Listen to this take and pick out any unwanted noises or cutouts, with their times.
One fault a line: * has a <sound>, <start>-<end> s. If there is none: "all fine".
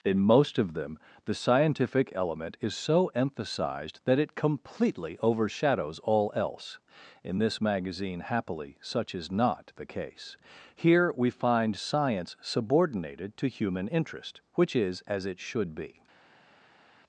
all fine